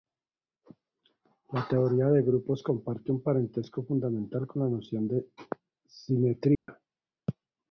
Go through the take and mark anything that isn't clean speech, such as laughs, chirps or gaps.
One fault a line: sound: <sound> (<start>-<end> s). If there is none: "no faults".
sound: dropout (6.5-6.7 s)